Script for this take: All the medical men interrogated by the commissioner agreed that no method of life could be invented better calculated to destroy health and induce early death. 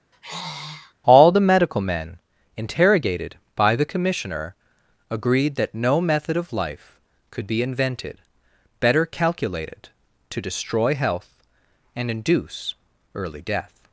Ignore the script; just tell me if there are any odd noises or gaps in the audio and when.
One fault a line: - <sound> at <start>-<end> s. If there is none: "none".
- sigh at 0.1-0.9 s